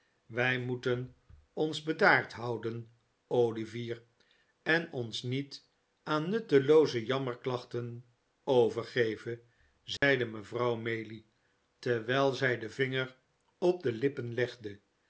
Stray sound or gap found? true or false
true